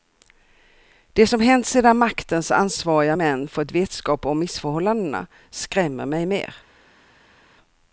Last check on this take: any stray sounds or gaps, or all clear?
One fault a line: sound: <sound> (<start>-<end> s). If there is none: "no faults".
no faults